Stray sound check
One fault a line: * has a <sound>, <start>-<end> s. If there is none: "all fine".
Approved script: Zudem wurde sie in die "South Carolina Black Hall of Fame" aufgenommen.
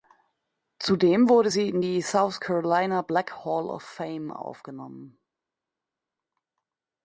all fine